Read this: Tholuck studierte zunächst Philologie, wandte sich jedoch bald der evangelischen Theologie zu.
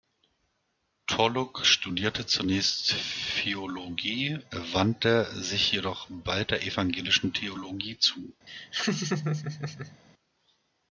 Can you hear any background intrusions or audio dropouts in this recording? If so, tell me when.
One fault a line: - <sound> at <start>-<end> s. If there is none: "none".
- laugh at 8.5-10.0 s